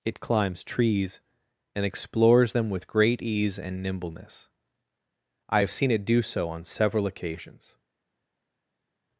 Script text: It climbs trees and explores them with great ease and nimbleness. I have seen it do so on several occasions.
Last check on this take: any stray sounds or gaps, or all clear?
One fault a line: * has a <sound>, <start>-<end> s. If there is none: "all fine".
all fine